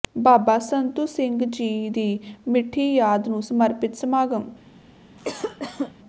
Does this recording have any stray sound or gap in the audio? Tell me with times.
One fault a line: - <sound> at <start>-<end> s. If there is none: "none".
- cough at 5.2-5.9 s